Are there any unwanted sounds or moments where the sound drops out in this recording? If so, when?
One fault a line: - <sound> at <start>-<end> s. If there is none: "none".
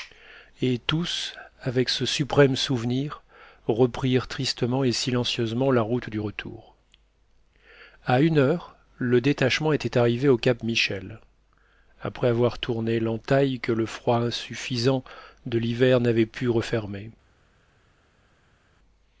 none